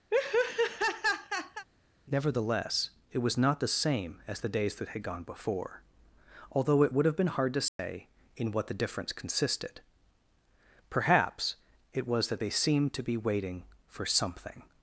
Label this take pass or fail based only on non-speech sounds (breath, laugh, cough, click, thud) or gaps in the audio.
fail